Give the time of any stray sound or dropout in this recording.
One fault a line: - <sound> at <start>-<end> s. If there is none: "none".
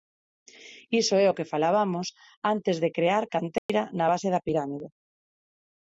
- dropout at 3.6-3.7 s